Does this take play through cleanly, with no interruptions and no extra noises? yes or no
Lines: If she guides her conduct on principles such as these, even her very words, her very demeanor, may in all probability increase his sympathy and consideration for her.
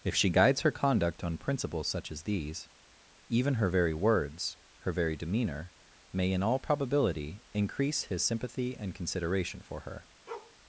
no